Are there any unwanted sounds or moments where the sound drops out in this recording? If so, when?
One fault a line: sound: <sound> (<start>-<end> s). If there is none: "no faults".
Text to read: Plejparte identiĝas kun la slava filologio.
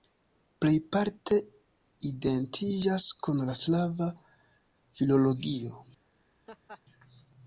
sound: laugh (6.5-6.8 s)